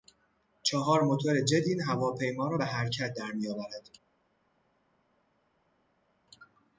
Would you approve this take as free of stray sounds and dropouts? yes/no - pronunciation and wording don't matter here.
yes